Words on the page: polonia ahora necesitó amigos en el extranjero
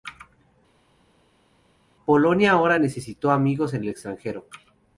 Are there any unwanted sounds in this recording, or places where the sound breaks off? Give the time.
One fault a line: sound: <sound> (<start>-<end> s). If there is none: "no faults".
no faults